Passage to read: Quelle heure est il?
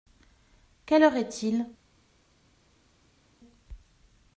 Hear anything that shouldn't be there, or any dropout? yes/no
no